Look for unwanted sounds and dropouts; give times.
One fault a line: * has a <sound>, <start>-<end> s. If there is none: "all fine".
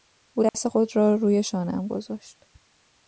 * has a dropout, 0.5-0.5 s